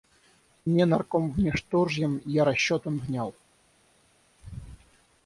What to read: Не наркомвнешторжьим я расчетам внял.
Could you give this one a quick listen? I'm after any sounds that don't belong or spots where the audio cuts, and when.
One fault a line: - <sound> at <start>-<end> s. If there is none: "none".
none